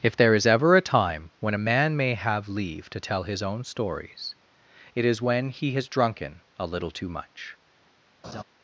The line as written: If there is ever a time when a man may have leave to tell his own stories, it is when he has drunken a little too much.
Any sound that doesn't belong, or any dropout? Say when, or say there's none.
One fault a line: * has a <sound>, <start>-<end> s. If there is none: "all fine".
* has a laugh, 8.2-8.4 s